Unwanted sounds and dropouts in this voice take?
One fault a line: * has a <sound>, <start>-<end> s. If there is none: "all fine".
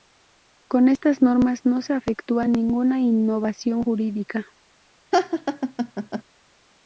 * has a laugh, 5.1-6.2 s